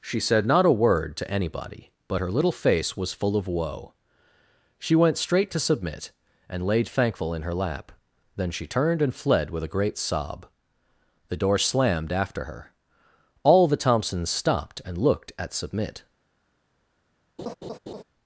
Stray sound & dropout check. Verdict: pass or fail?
fail